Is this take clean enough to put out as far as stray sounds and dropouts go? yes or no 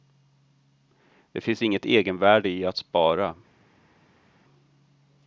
yes